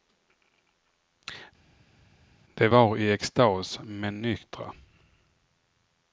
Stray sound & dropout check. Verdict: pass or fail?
pass